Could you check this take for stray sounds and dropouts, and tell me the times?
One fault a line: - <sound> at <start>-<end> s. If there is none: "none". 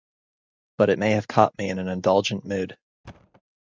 - thud at 3.0-3.4 s